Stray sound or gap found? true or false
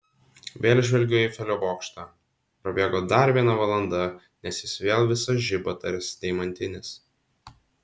false